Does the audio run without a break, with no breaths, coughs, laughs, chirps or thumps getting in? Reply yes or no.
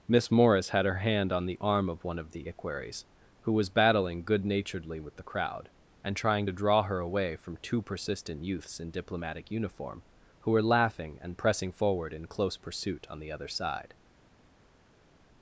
yes